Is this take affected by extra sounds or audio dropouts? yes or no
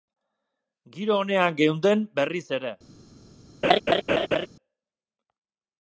yes